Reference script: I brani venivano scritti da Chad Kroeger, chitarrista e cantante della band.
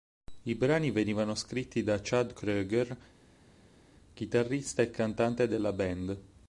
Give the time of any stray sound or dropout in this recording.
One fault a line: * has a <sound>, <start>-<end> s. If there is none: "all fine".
all fine